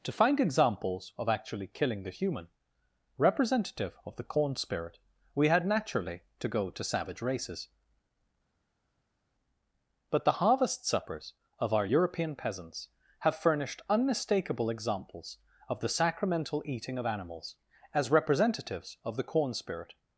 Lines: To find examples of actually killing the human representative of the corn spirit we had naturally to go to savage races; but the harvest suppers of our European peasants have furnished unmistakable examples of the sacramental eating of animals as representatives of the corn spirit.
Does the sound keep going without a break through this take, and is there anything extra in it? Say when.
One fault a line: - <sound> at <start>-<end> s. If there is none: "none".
none